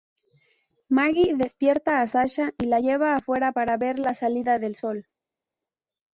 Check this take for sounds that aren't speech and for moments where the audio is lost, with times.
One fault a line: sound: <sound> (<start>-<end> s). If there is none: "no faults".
no faults